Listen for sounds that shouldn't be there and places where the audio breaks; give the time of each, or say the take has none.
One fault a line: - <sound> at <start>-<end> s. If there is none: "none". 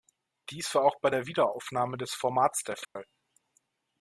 - dropout at 2.8-3.0 s